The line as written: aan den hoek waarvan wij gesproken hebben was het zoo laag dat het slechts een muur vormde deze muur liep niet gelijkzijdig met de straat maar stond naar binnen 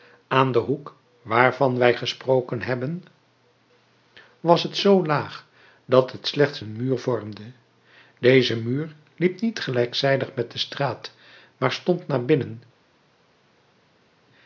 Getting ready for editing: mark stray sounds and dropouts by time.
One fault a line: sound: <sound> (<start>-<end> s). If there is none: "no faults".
no faults